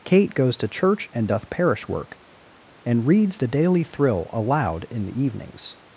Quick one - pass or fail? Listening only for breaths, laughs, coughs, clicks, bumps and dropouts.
pass